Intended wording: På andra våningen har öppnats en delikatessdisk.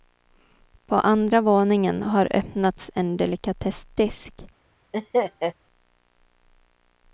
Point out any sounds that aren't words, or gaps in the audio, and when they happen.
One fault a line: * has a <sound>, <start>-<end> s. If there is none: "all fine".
* has a laugh, 4.9-5.5 s